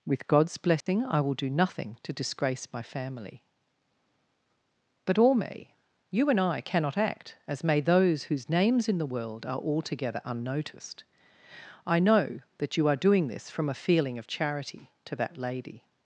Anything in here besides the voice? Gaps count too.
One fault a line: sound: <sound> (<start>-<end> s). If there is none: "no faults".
sound: dropout (0.8-0.9 s)